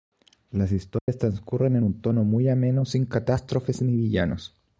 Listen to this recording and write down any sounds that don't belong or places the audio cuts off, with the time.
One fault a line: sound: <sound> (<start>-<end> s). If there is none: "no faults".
sound: dropout (1.0-1.1 s)